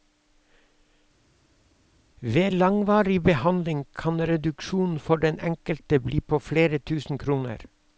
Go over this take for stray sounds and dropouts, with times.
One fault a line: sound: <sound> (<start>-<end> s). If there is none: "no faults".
no faults